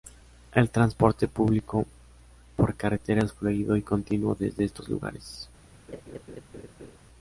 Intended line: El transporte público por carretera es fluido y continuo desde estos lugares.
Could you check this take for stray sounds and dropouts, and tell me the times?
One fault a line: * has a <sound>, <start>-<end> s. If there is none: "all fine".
* has a laugh, 5.9-7.0 s